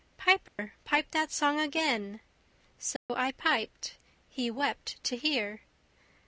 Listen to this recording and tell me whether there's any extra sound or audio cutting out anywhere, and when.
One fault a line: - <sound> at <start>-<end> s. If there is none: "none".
- dropout at 0.5-0.6 s
- dropout at 3.0-3.1 s